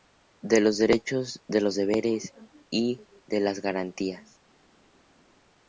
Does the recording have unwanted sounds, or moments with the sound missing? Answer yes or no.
no